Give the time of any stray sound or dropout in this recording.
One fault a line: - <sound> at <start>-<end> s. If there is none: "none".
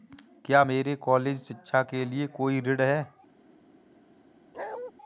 - bark at 4.5-4.9 s